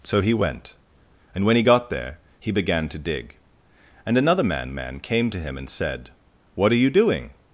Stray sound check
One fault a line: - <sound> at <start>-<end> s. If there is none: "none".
none